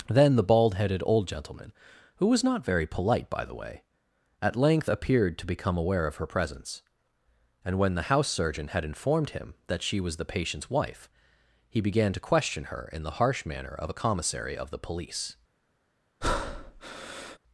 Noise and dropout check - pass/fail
fail